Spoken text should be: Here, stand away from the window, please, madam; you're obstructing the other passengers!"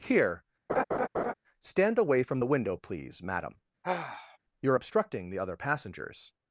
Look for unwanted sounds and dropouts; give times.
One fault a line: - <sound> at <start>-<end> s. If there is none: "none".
- laugh at 0.7-1.3 s
- sigh at 3.8-4.4 s